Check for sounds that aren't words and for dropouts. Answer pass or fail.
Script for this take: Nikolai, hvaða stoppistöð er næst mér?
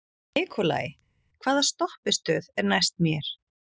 pass